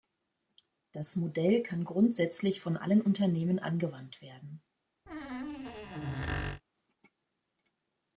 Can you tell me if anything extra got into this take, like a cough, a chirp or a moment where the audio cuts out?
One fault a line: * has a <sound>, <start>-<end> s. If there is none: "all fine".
* has a squeak, 5.1-6.6 s